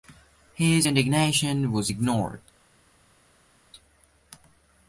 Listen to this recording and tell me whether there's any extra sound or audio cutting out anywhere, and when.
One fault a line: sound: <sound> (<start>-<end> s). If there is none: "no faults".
no faults